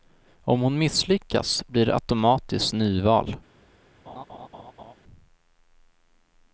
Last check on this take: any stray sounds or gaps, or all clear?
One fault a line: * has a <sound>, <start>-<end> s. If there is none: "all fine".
* has a laugh, 4.1-4.9 s